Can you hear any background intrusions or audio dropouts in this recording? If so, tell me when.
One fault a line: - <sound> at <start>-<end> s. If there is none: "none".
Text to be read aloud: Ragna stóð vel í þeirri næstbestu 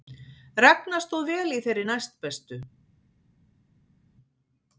none